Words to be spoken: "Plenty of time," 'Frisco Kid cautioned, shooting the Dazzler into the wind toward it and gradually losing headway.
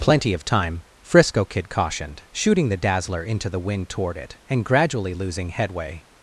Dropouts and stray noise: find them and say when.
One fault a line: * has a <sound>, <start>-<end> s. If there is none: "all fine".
all fine